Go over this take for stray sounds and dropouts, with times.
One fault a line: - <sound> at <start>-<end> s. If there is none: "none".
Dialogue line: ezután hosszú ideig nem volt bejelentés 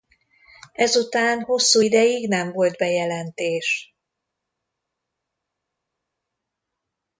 none